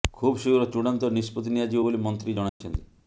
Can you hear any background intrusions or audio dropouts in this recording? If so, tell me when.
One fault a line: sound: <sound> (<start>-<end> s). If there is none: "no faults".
sound: dropout (2.5-2.6 s)